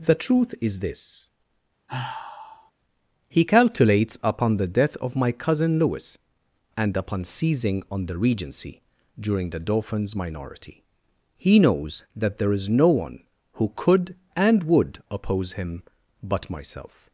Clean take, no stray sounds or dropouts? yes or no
no